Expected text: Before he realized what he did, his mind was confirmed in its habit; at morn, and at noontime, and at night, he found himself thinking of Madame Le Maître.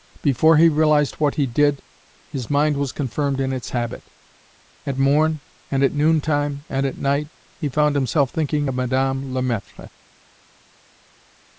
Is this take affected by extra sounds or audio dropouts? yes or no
no